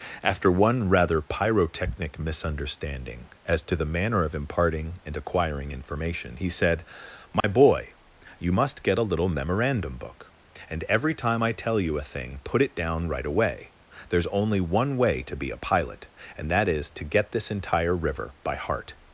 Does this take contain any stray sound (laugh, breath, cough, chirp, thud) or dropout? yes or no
yes